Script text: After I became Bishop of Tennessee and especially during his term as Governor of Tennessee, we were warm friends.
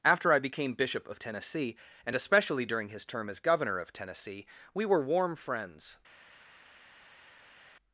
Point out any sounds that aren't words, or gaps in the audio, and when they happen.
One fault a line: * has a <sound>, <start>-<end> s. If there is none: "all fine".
all fine